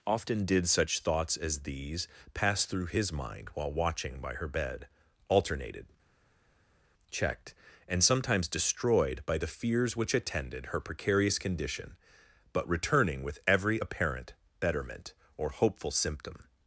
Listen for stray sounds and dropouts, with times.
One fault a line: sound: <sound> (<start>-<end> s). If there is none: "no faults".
no faults